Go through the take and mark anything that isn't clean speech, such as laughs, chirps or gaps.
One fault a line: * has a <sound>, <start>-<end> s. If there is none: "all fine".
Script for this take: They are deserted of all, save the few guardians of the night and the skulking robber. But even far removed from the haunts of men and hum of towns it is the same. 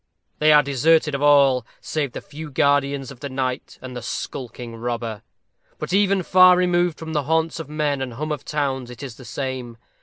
all fine